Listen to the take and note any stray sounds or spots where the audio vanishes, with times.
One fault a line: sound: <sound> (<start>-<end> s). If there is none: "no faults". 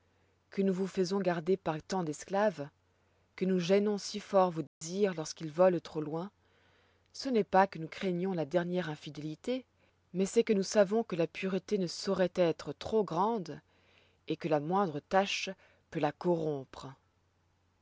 sound: dropout (4.7-4.8 s)